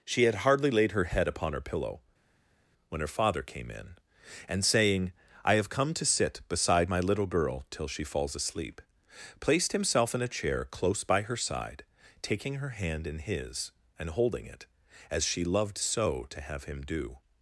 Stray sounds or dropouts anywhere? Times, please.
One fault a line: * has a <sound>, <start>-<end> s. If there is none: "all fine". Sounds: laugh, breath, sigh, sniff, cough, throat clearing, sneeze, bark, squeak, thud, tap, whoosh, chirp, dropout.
all fine